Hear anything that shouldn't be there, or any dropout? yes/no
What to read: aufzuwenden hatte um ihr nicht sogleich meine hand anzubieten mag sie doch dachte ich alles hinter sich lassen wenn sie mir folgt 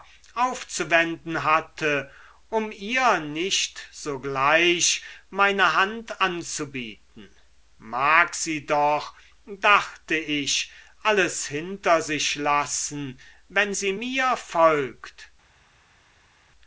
no